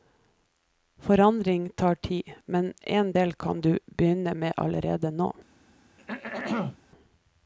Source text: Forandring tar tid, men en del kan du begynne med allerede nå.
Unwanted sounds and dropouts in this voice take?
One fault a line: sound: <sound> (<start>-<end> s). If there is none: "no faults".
sound: throat clearing (6.0-6.8 s)